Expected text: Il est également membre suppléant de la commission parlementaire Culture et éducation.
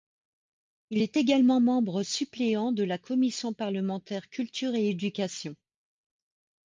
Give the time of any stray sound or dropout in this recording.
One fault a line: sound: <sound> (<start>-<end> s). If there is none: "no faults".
no faults